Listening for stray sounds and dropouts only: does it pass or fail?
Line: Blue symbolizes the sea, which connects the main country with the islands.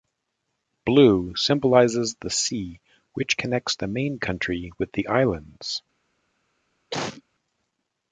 fail